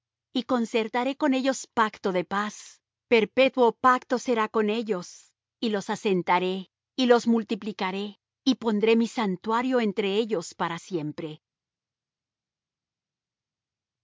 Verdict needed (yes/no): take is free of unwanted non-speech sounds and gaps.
yes